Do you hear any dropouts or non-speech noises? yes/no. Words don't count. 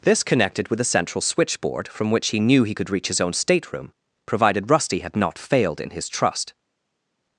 no